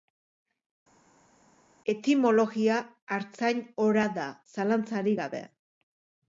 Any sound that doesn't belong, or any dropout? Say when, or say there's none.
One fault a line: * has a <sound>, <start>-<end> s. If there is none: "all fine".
all fine